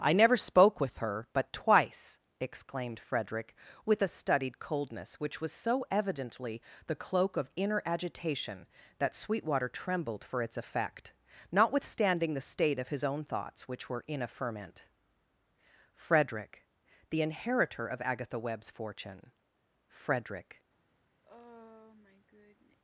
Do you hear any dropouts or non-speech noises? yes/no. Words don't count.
yes